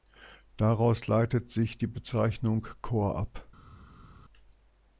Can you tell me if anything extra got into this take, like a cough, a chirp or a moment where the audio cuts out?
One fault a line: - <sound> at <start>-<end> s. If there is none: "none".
none